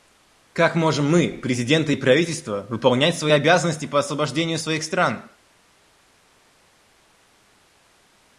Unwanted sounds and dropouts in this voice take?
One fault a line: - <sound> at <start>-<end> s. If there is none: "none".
none